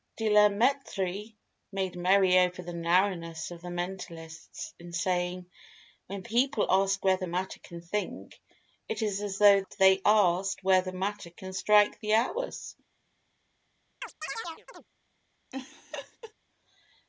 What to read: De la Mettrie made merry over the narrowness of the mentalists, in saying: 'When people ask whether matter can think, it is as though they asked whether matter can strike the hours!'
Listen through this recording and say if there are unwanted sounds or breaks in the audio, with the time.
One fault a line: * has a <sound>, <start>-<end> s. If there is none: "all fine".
* has a chirp, 14.0-14.9 s
* has a laugh, 15.5-16.3 s